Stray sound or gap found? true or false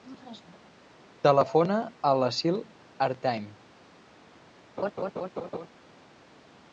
true